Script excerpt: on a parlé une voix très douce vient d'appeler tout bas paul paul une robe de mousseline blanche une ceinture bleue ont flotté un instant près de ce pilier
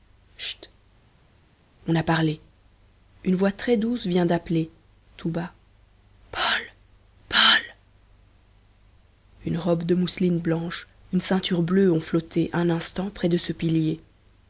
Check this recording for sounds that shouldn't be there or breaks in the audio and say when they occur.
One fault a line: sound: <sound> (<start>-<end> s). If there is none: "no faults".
no faults